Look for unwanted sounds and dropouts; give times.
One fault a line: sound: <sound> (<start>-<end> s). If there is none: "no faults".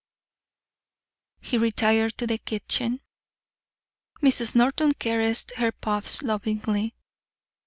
no faults